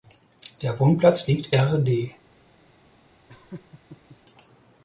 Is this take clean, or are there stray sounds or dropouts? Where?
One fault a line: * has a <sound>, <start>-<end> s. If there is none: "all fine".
* has a laugh, 3.3-4.2 s